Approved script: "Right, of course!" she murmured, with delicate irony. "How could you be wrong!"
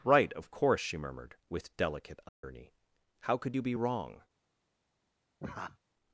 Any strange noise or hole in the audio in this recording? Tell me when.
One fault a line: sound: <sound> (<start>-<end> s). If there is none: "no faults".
sound: dropout (2.3-2.4 s)
sound: laugh (5.4-5.8 s)